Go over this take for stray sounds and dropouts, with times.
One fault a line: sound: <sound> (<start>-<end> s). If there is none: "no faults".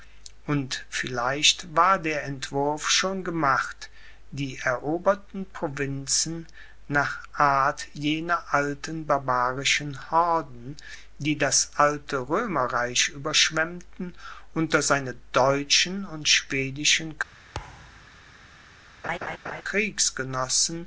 sound: thud (17.5-18.2 s)
sound: laugh (19.0-19.6 s)